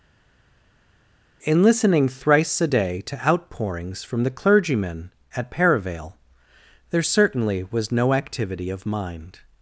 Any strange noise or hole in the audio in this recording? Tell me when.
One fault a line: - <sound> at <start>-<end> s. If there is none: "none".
none